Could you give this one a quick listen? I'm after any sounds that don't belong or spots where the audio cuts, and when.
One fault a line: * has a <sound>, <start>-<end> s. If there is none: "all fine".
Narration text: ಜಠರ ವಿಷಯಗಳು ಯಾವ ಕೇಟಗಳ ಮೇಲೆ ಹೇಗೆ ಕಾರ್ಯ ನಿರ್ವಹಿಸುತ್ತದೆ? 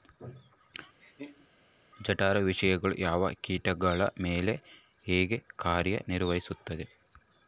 * has a laugh, 1.0-1.5 s